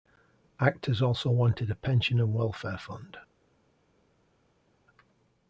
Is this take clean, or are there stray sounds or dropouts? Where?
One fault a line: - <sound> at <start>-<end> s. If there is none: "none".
none